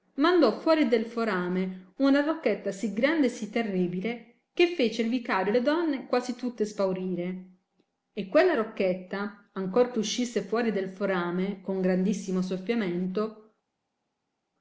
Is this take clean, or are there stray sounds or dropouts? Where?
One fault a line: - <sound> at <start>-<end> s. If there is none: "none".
none